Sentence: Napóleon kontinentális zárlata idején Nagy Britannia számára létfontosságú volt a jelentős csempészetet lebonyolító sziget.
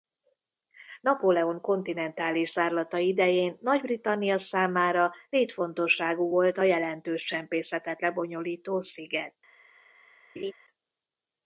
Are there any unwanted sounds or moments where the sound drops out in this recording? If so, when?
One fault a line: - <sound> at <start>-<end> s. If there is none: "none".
- laugh at 10.4-10.5 s